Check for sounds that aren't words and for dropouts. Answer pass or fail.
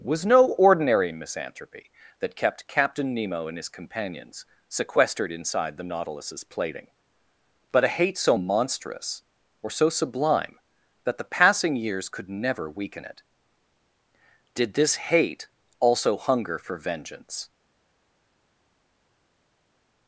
pass